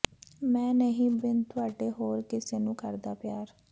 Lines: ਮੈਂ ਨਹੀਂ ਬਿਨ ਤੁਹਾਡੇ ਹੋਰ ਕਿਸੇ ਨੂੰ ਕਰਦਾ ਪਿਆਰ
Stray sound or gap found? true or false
false